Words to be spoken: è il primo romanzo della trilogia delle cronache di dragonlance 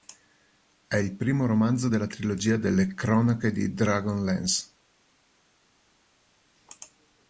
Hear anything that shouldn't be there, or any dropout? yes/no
no